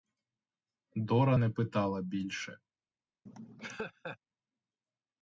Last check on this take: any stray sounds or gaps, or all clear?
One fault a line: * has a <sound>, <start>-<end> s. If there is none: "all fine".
* has a laugh, 3.3-4.2 s